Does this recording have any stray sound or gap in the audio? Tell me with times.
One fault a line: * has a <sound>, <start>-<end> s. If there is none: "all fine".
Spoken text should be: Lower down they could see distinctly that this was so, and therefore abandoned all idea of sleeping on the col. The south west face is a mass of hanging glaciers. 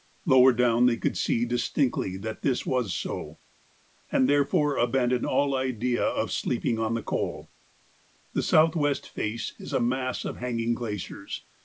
all fine